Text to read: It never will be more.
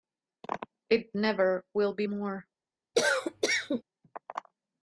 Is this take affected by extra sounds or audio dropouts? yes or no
yes